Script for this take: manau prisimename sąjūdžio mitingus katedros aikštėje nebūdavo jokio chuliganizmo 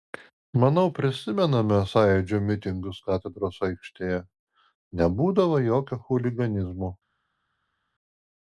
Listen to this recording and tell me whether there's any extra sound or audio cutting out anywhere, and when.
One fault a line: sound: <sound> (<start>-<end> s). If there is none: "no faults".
no faults